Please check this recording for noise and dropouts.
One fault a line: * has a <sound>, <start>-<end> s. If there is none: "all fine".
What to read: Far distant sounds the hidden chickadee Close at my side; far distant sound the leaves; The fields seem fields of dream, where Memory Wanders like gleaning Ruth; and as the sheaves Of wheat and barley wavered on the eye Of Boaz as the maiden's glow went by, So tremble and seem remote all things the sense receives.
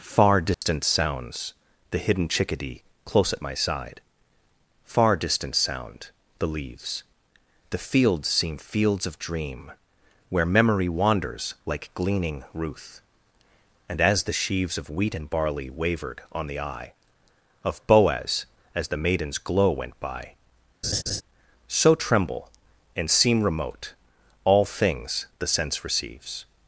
* has a dropout, 0.5-0.6 s
* has a laugh, 20.8-21.2 s